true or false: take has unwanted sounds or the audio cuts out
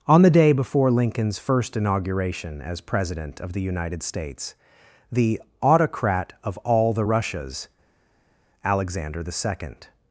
false